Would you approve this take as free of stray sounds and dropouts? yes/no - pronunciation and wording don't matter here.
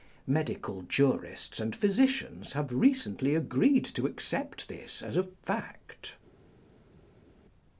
yes